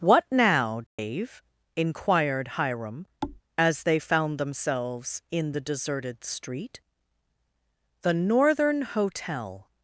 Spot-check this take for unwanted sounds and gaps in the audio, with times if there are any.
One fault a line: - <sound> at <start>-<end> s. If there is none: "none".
- dropout at 0.9-1.0 s
- thud at 3.2-3.4 s